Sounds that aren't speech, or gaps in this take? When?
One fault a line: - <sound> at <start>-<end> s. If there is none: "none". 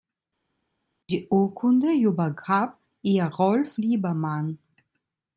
none